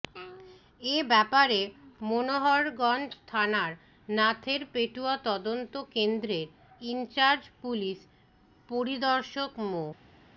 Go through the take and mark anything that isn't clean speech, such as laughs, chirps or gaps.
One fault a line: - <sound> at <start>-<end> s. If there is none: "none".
none